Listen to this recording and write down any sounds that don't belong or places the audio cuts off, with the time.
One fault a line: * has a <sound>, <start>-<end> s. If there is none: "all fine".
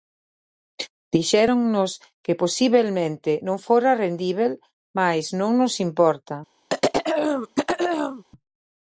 * has a throat clearing, 6.7-8.2 s